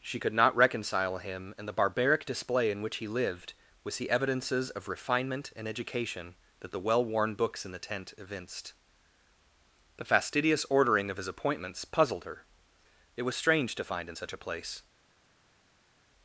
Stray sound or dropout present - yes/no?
no